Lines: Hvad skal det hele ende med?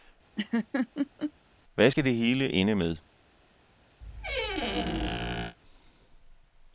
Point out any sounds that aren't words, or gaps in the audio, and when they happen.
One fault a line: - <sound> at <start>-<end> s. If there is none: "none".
- laugh at 0.4-1.3 s
- squeak at 4.0-5.6 s